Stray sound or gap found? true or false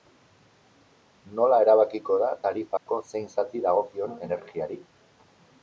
true